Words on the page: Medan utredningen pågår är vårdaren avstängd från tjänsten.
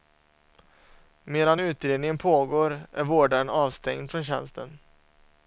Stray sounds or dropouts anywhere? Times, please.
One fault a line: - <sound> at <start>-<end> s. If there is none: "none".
none